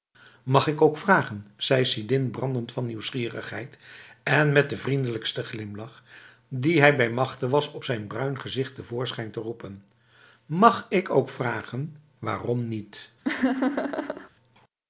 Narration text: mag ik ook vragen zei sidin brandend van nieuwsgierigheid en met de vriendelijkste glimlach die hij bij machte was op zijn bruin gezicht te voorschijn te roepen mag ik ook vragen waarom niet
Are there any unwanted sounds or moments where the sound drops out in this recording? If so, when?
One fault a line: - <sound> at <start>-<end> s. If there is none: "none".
- laugh at 13.2-14.3 s